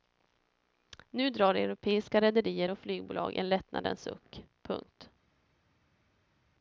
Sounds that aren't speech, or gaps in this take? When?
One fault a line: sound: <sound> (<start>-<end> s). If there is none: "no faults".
no faults